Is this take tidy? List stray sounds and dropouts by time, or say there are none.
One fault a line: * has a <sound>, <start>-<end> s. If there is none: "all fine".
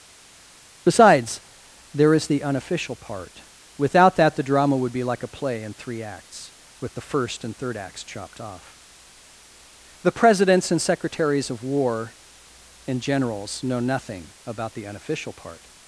all fine